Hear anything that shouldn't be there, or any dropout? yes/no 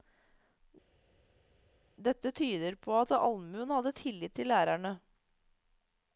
no